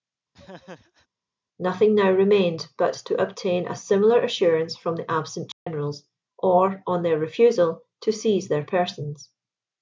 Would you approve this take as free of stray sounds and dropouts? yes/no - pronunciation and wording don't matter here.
no